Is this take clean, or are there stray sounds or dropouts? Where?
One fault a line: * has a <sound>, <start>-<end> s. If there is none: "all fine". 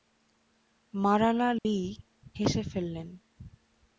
* has a dropout, 1.6-1.7 s